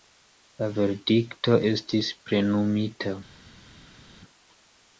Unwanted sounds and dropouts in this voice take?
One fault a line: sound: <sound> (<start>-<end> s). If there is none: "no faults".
no faults